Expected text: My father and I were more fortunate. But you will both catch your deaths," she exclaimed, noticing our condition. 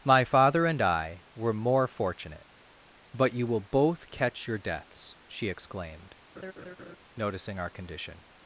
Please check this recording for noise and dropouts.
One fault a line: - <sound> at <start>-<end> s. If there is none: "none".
- laugh at 6.3-7.0 s